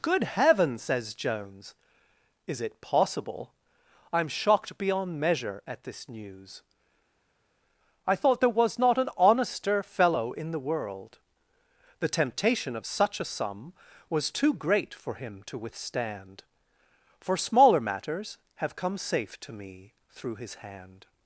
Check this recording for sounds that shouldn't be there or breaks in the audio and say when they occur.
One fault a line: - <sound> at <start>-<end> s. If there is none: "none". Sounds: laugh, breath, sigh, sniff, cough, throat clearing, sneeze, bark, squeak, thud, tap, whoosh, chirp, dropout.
none